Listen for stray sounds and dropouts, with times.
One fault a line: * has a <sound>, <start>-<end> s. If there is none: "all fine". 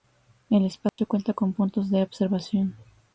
* has a dropout, 0.9-1.0 s